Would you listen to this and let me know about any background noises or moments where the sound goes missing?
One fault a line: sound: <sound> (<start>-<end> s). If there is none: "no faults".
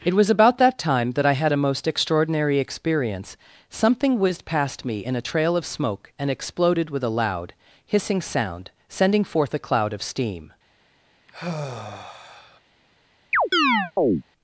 sound: sigh (11.3-12.6 s)
sound: chirp (13.3-14.2 s)